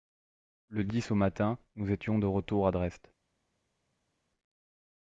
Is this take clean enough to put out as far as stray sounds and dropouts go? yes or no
yes